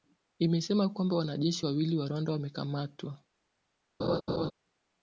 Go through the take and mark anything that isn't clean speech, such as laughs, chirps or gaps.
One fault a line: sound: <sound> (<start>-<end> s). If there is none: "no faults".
sound: laugh (4.0-4.5 s)